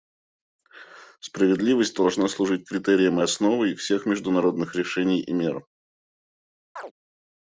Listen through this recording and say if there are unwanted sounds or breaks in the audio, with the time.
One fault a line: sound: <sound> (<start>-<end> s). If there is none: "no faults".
sound: chirp (6.8-6.9 s)